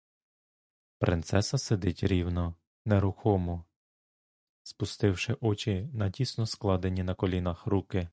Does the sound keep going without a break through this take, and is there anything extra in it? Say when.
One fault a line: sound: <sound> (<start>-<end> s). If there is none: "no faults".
no faults